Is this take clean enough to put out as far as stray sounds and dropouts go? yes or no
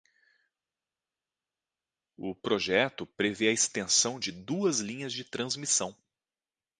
yes